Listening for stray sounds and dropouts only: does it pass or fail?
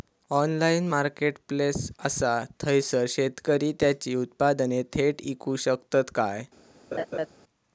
fail